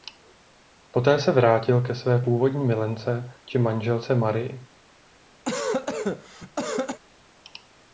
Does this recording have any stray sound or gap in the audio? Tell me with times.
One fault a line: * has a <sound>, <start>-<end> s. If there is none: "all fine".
* has a cough, 5.4-7.0 s